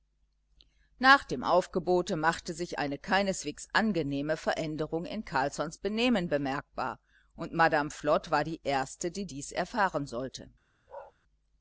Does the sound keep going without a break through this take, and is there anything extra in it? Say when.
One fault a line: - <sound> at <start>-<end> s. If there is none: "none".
- bark at 10.9-11.1 s